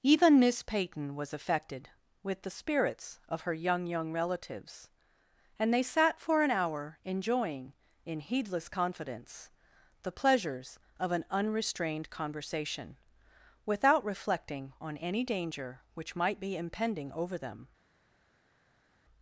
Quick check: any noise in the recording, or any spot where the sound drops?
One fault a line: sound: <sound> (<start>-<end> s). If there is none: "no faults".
no faults